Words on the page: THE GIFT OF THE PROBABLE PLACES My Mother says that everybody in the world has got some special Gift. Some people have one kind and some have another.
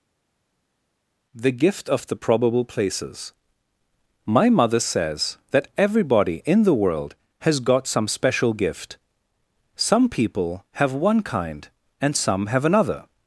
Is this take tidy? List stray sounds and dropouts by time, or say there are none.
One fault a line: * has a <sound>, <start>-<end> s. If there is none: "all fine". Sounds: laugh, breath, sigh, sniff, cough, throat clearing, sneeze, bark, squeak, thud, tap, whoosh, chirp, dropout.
all fine